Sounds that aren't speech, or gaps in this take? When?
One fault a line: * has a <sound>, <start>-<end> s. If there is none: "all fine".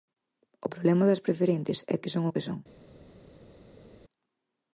all fine